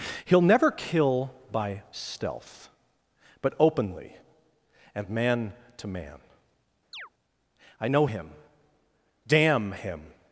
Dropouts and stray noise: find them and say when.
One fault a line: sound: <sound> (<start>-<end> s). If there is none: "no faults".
sound: chirp (6.9-7.1 s)